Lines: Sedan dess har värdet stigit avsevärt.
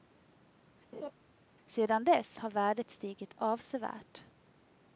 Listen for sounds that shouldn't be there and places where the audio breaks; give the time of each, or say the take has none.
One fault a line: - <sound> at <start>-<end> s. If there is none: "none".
- laugh at 0.9-1.1 s